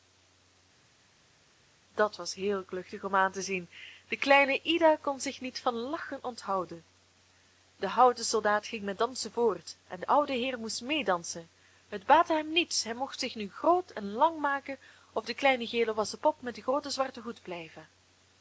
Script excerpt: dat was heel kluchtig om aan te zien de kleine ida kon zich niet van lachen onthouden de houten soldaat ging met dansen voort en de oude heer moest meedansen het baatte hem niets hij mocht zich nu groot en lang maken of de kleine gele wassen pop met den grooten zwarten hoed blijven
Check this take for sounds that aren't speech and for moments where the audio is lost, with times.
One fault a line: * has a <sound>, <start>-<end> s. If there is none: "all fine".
all fine